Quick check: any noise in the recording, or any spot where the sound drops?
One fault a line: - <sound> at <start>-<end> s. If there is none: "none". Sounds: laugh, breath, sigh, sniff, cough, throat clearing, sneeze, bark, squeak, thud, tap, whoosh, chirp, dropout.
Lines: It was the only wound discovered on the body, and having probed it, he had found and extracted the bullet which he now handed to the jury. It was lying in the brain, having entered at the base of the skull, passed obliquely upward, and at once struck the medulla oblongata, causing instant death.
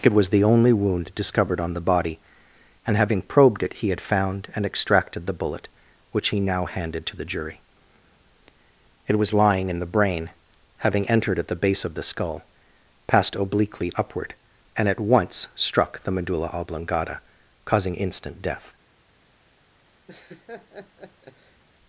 - laugh at 20.1-21.6 s